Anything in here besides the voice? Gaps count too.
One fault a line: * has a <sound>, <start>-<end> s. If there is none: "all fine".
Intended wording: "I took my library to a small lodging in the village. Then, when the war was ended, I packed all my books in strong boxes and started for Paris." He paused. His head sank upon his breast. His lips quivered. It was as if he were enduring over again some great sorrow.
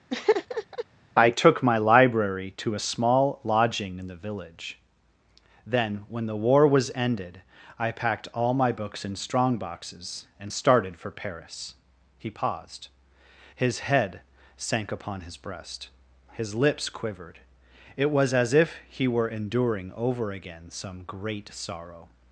* has a laugh, 0.1-0.9 s